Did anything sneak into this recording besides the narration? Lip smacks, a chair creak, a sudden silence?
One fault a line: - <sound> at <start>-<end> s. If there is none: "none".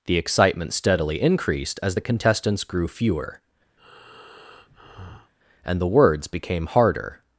- breath at 3.8-5.3 s